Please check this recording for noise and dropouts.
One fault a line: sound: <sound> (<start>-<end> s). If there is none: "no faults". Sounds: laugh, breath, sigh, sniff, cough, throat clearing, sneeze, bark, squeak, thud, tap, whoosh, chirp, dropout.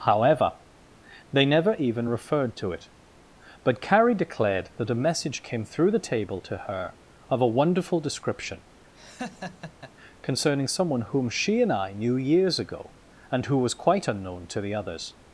sound: laugh (8.9-9.9 s)